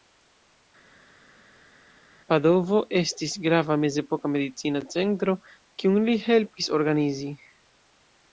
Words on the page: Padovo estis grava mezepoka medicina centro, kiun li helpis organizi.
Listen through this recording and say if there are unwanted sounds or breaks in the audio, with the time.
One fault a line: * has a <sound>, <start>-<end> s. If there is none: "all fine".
all fine